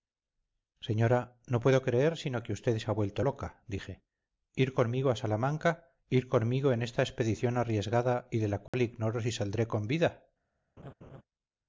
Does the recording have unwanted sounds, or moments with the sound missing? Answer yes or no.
yes